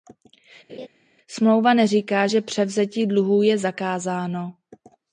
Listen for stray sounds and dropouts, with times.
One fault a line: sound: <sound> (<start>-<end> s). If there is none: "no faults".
sound: laugh (0.7-0.9 s)